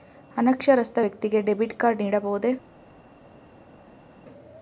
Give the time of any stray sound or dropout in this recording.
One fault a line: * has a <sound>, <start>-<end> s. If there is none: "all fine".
all fine